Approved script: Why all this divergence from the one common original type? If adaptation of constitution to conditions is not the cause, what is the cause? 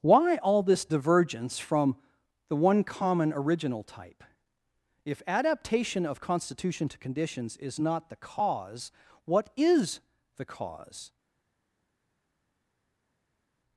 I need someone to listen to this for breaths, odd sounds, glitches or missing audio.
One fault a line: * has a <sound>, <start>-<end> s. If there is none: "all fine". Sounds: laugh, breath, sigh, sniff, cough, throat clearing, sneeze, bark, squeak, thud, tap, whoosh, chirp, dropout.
all fine